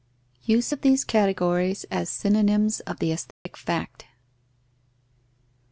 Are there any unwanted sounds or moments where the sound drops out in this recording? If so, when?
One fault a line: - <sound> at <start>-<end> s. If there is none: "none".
- dropout at 3.3-3.5 s